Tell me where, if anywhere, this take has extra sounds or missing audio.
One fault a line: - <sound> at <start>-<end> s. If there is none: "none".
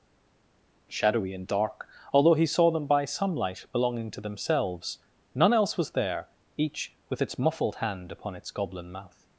none